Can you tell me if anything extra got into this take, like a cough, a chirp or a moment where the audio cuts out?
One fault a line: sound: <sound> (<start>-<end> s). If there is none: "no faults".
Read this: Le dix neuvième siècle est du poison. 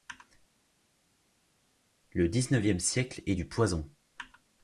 no faults